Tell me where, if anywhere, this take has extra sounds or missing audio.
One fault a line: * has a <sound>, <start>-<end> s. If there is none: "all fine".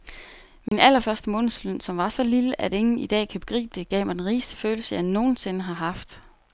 * has a dropout, 0.7-0.7 s